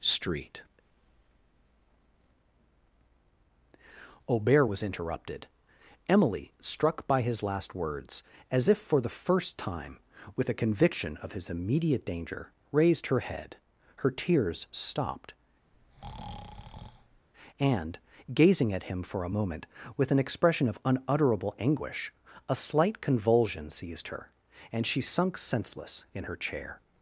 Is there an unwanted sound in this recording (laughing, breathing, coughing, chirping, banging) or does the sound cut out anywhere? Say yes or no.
yes